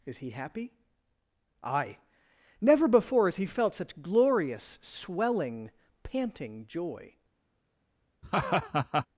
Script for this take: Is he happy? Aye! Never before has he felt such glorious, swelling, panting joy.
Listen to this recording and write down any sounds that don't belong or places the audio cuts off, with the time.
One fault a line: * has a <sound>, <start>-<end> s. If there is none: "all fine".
* has a laugh, 8.2-9.1 s